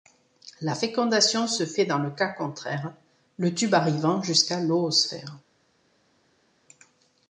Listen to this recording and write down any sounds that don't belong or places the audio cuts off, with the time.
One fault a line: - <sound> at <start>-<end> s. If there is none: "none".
none